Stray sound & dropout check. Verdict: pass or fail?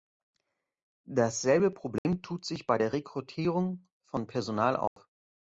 fail